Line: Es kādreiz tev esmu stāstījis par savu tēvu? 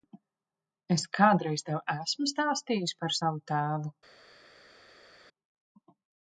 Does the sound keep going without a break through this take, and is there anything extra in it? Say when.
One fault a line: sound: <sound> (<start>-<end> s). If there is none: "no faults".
no faults